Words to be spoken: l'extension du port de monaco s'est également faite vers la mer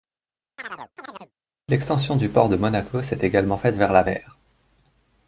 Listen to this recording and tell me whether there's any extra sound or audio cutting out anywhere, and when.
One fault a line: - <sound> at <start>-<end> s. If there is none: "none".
- chirp at 0.6-1.3 s